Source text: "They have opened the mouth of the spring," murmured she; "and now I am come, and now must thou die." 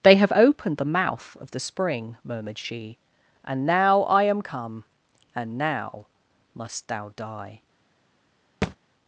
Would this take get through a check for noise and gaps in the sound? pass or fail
fail